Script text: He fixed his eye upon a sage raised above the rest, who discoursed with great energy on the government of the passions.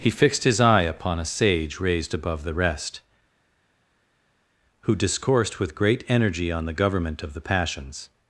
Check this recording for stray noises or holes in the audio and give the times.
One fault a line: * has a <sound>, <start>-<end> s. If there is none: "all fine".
all fine